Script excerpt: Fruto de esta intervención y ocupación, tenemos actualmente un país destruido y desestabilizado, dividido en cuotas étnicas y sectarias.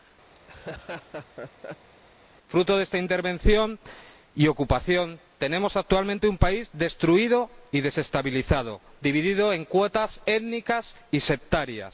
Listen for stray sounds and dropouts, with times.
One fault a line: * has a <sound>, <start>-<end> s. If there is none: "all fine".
* has a laugh, 0.4-1.9 s